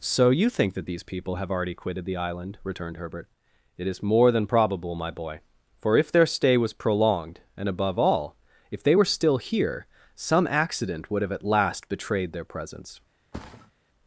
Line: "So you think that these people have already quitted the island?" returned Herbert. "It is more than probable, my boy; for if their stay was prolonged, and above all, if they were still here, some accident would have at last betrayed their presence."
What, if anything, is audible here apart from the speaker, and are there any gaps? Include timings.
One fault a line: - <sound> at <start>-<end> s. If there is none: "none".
- thud at 13.3-13.7 s